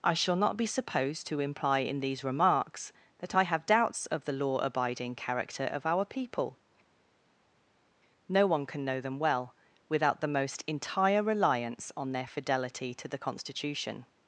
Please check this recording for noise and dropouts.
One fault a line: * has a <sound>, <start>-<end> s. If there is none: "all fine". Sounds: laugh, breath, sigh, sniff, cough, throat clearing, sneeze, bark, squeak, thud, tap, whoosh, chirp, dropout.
all fine